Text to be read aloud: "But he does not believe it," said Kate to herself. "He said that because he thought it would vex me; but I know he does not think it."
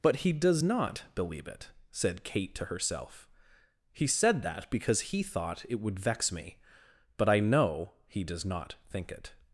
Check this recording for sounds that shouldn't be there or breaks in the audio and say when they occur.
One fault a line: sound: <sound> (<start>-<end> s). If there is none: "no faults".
no faults